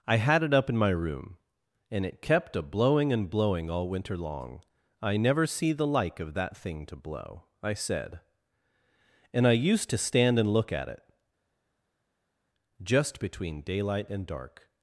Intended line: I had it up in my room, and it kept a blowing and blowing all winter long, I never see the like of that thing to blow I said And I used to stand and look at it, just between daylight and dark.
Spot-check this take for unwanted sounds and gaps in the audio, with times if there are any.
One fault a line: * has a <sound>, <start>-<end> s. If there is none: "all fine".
all fine